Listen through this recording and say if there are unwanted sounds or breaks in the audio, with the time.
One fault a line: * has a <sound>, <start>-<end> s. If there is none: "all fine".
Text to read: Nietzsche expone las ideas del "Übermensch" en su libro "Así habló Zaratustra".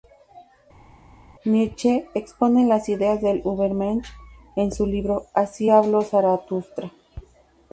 all fine